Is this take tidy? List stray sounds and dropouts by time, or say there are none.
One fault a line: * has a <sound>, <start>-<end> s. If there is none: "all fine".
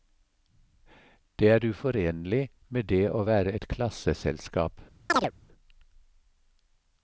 * has a chirp, 5.1-5.3 s